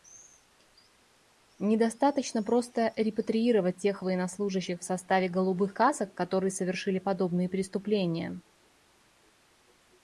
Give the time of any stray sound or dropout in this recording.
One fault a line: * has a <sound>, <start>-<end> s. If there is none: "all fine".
all fine